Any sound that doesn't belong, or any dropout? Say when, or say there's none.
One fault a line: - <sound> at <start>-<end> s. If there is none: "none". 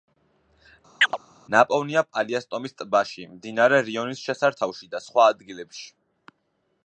- chirp at 1.0-1.2 s